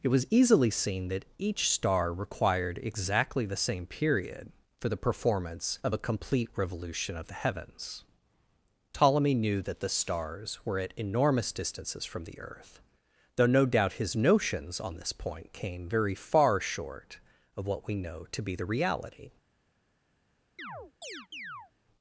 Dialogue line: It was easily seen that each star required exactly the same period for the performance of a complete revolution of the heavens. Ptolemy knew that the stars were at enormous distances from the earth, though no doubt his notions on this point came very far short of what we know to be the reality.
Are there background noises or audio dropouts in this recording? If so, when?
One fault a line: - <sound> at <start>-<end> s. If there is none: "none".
- chirp at 20.6-21.7 s